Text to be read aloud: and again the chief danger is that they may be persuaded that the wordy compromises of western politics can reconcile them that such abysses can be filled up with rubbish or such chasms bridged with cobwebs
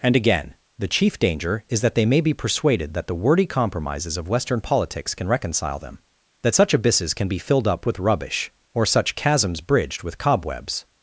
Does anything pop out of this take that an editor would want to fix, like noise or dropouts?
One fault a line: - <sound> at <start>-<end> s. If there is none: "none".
none